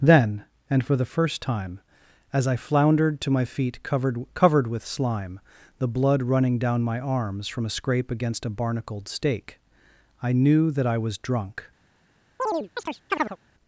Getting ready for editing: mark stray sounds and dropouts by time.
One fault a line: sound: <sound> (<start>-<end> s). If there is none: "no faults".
sound: chirp (12.4-13.4 s)